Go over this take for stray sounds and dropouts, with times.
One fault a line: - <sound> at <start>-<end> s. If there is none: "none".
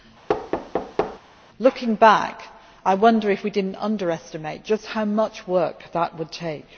- thud at 0.3-1.2 s